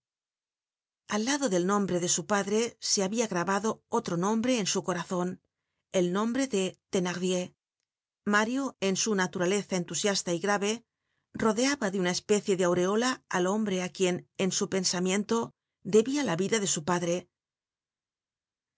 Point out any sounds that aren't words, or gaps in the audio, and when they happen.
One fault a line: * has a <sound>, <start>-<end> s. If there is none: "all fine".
all fine